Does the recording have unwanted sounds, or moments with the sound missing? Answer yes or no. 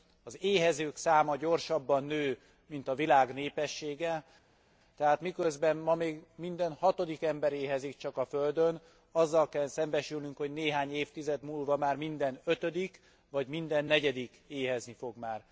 no